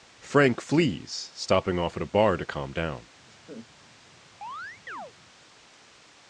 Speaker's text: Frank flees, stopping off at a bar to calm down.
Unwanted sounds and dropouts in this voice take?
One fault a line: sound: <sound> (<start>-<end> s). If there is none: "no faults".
sound: laugh (3.3-3.7 s)
sound: chirp (4.4-5.1 s)